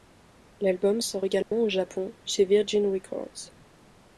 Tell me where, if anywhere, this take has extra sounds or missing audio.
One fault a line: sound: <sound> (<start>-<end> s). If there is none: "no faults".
sound: dropout (1.4-1.5 s)